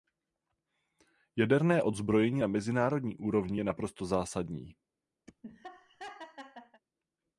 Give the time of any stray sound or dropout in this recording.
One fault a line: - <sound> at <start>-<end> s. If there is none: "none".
- laugh at 5.3-6.8 s